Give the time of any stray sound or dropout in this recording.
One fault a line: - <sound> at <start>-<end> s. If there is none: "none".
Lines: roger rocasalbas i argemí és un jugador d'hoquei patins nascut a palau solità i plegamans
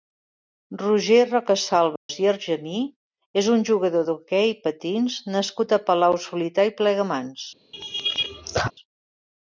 - dropout at 2.0-2.1 s
- laugh at 7.7-8.7 s